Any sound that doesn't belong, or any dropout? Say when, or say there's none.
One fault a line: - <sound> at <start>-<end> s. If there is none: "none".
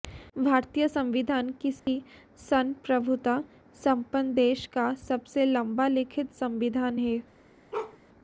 - dropout at 1.8-1.9 s
- bark at 7.7-8.0 s